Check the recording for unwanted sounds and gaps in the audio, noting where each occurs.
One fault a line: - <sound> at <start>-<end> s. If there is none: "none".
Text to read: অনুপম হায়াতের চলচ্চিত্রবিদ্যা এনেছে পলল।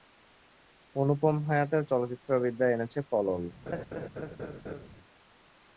- laugh at 3.7-4.9 s